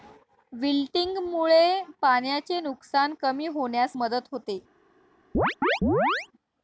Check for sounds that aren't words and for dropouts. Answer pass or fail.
fail